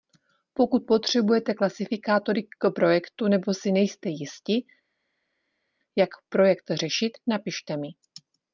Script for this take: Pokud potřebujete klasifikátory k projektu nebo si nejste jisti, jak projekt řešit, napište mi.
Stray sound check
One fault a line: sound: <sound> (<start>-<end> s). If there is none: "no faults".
no faults